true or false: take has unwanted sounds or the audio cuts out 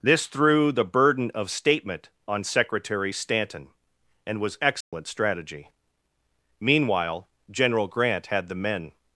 true